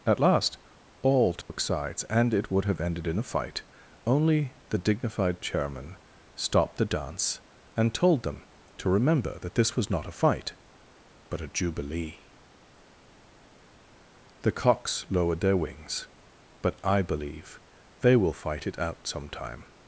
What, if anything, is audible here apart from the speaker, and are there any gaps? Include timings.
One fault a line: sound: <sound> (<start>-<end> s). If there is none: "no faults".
sound: dropout (1.4-1.5 s)